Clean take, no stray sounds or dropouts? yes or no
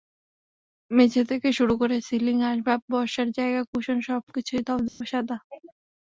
no